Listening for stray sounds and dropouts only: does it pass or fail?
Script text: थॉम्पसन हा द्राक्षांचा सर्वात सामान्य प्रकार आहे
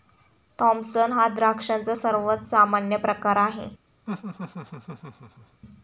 fail